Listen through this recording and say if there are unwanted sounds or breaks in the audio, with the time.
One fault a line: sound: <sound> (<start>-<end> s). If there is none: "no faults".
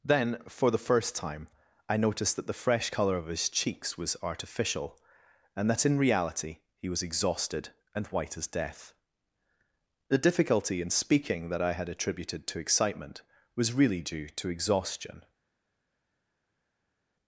no faults